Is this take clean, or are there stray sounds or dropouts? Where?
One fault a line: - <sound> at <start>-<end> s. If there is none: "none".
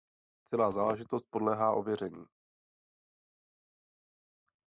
none